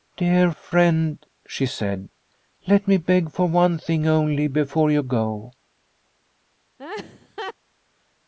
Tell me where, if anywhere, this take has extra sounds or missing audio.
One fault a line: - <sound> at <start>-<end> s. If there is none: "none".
- laugh at 6.8-7.5 s